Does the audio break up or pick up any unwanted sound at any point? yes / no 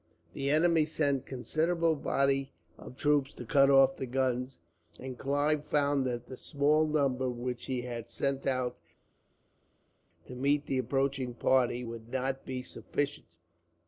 no